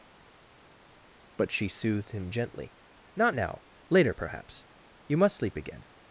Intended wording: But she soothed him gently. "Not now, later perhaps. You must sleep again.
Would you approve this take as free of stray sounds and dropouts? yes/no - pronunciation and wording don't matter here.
yes